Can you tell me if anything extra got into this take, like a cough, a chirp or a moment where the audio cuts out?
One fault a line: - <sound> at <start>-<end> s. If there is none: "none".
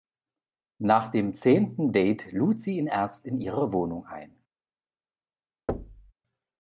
- thud at 5.7-6.1 s